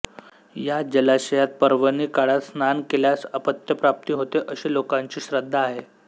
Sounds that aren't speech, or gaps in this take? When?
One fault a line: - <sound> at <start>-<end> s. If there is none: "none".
none